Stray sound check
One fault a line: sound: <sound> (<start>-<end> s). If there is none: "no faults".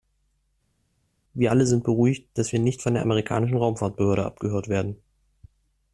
no faults